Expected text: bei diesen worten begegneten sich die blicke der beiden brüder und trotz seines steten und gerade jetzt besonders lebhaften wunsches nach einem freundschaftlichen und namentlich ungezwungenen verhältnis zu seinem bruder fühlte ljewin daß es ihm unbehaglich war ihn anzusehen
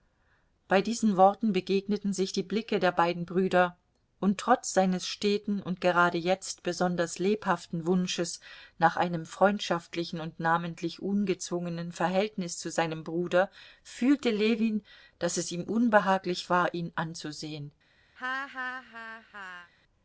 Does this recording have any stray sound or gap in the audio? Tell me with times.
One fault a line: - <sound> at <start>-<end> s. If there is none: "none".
- laugh at 18.2-19.7 s